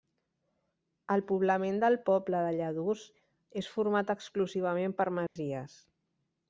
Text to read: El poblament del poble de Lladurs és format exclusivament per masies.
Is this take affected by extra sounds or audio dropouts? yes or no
yes